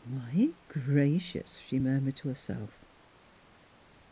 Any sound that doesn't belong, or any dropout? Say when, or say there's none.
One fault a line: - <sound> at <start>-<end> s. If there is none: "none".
none